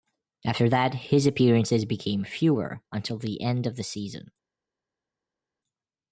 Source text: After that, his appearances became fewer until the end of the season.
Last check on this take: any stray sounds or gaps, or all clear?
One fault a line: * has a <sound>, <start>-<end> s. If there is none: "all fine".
all fine